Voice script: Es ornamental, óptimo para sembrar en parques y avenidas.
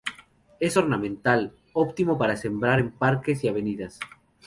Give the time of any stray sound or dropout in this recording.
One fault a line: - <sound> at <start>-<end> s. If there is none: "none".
none